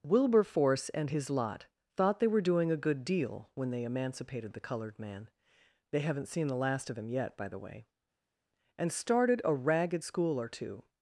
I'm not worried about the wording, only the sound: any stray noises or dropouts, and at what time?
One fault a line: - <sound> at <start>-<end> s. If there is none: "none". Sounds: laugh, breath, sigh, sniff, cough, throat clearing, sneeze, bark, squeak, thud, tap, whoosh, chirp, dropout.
none